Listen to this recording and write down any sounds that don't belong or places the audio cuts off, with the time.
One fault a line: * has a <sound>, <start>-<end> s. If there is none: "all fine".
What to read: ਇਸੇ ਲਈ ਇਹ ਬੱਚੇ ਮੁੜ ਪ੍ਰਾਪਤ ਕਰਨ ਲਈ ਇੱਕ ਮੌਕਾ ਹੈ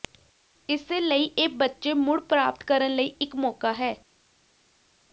all fine